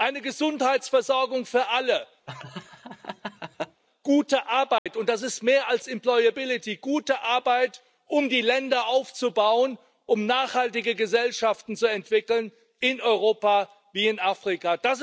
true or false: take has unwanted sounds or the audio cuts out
true